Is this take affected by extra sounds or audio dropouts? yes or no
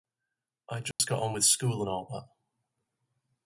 yes